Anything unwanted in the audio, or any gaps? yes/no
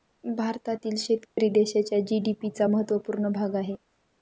yes